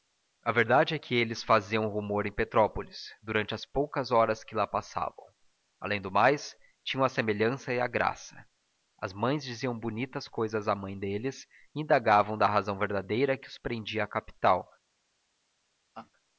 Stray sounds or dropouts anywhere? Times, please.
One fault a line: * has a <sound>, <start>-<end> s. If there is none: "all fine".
* has a laugh, 15.9-16.1 s